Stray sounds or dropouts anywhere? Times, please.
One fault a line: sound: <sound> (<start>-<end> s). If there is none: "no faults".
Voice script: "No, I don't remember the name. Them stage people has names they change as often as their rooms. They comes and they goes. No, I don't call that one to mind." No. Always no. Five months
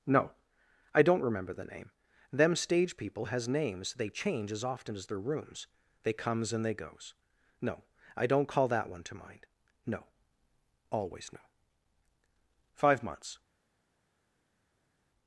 no faults